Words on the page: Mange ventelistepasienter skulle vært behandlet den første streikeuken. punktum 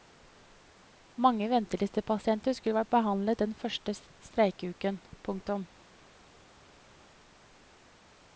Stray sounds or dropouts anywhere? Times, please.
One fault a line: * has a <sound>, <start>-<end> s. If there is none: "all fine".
all fine